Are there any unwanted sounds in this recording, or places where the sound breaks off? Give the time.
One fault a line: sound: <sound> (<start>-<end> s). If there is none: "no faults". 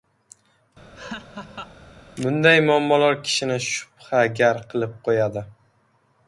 sound: laugh (0.9-1.8 s)